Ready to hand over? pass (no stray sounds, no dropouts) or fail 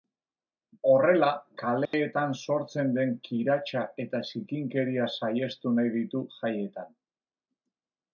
fail